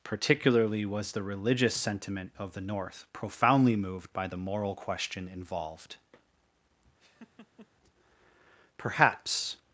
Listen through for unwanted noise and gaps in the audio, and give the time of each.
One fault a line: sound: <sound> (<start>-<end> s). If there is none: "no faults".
sound: laugh (7.0-7.7 s)